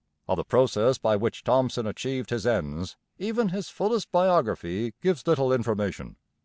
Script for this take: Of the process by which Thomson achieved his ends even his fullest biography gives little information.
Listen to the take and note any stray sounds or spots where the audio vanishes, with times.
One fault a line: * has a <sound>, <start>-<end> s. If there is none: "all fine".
all fine